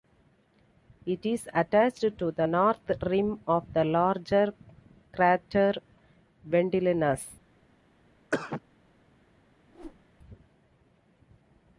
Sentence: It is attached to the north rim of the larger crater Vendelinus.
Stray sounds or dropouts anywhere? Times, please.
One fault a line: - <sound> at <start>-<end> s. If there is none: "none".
- cough at 8.3-8.6 s
- whoosh at 9.7-10.0 s